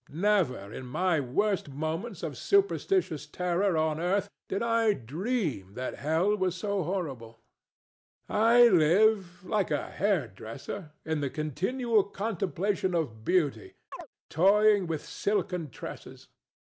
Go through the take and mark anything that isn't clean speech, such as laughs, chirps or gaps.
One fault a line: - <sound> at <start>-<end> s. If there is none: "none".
- chirp at 13.9-14.1 s